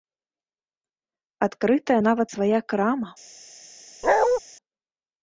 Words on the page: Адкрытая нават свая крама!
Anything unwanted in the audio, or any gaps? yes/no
yes